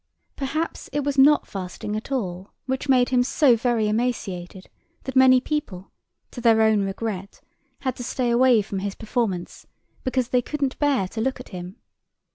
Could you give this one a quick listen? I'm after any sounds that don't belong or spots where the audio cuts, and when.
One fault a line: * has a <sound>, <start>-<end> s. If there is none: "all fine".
all fine